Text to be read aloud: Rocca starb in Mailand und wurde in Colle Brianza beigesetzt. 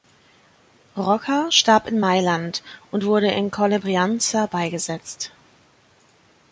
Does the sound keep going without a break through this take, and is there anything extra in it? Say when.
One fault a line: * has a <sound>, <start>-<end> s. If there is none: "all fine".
all fine